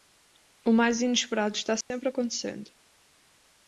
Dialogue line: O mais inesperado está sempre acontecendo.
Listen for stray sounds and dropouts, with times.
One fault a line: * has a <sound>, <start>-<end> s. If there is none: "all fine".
* has a dropout, 1.8-1.9 s